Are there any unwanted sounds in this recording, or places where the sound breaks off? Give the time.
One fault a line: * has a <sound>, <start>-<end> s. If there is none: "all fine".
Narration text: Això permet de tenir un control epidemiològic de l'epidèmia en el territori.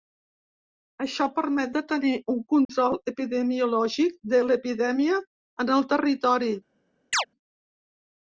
* has a dropout, 2.7-2.7 s
* has a chirp, 7.1-7.3 s